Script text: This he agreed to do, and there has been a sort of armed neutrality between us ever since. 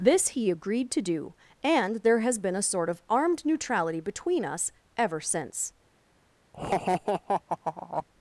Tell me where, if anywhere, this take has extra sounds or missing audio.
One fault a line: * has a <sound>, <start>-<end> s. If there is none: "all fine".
* has a laugh, 6.5-8.1 s